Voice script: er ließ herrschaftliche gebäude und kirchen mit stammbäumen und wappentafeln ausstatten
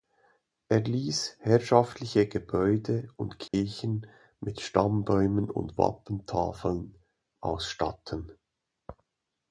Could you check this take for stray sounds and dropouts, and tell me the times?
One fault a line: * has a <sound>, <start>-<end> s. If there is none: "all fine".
* has a dropout, 3.5-3.5 s